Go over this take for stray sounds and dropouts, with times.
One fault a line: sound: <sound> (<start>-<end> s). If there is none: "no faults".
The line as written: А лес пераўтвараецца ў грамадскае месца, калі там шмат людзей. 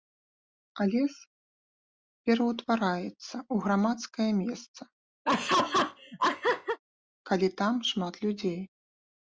sound: laugh (5.2-6.8 s)